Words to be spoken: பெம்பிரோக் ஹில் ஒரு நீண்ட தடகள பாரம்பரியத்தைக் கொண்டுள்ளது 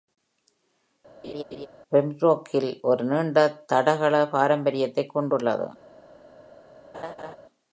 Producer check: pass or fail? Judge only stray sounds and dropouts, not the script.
fail